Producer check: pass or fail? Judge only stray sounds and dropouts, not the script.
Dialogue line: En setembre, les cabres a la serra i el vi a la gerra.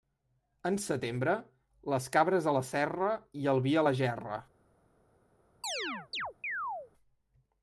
fail